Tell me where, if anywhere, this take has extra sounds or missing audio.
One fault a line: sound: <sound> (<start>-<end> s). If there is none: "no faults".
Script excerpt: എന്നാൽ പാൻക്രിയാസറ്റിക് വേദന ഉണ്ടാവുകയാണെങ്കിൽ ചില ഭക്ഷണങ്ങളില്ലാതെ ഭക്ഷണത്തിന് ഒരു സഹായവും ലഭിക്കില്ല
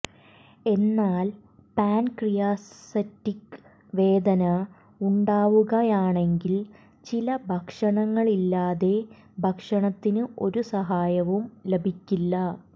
no faults